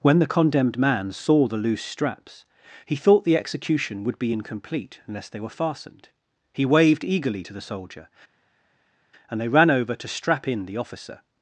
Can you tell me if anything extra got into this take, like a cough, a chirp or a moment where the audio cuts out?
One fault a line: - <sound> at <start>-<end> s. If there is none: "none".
none